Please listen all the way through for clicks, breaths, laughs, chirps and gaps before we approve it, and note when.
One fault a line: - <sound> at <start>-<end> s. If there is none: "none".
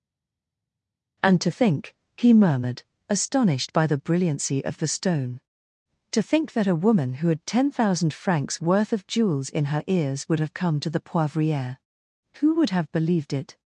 none